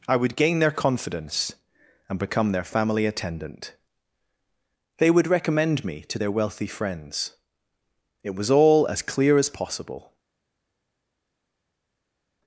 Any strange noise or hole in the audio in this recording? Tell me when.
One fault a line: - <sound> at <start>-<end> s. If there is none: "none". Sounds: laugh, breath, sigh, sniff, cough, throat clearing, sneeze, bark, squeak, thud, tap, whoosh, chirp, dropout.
none